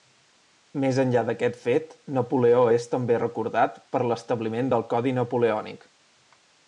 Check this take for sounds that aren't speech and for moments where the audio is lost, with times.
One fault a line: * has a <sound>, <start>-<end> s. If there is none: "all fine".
all fine